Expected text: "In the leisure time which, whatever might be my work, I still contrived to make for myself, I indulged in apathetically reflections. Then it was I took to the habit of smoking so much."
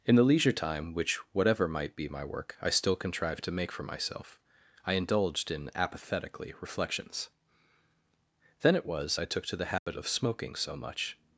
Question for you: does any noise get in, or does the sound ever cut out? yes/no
yes